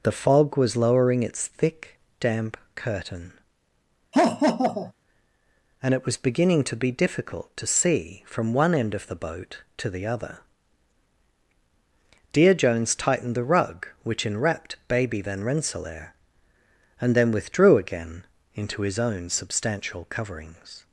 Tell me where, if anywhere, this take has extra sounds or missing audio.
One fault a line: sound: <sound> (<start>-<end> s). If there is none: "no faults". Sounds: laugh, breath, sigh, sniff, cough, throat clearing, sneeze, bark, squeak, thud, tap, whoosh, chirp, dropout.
sound: laugh (4.1-4.9 s)